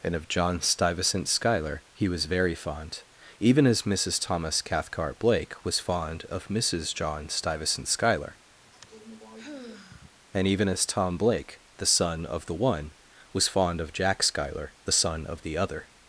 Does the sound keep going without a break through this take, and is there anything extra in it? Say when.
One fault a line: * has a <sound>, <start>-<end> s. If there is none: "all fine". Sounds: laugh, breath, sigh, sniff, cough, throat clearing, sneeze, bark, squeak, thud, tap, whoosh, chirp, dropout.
* has a sigh, 8.6-10.1 s